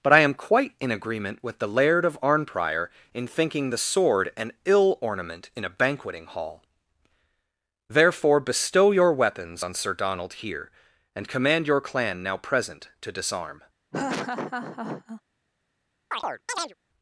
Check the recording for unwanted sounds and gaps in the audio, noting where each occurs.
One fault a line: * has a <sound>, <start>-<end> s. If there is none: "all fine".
* has a laugh, 13.9-15.2 s
* has a chirp, 16.1-16.7 s